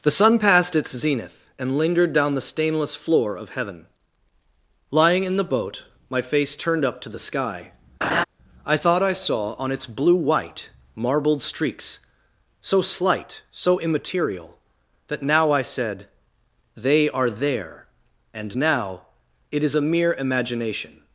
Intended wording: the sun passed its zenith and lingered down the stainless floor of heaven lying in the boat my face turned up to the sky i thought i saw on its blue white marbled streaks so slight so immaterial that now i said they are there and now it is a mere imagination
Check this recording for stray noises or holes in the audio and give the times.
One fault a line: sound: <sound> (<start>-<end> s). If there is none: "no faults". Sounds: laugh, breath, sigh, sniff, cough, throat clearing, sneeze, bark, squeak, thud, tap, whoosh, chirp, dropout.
sound: laugh (8.0-8.2 s)